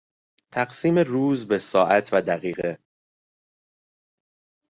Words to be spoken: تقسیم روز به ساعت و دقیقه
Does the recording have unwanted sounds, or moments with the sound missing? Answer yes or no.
no